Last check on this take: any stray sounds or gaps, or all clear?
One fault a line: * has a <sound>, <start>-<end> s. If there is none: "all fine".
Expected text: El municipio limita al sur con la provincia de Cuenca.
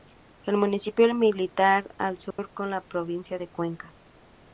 * has a dropout, 2.3-2.4 s